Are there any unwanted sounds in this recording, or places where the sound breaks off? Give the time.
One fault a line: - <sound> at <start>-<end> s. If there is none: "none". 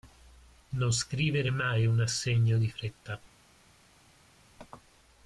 none